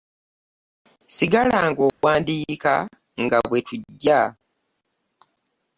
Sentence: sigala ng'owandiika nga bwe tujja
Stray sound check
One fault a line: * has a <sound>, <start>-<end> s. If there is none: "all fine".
* has a dropout, 1.9-2.0 s